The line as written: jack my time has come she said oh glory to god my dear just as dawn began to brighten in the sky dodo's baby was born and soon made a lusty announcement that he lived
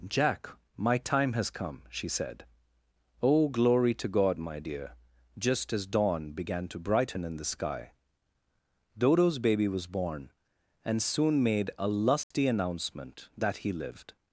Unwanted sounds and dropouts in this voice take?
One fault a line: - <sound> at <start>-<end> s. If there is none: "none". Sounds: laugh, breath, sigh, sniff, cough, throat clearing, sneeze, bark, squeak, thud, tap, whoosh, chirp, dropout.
- dropout at 12.2-12.3 s